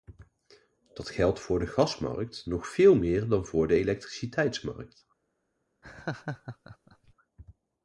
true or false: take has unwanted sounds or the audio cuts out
true